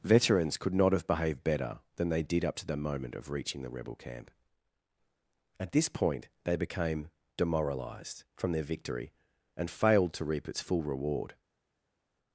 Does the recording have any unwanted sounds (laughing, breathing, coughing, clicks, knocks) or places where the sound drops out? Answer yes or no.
no